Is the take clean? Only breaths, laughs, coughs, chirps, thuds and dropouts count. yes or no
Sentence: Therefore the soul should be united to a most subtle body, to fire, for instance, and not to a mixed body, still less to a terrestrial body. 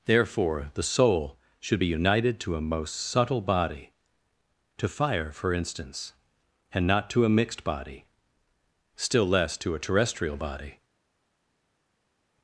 yes